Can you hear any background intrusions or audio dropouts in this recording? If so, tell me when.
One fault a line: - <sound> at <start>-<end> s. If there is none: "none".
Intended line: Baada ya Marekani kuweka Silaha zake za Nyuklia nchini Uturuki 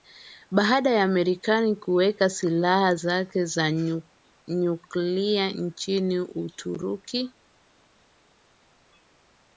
none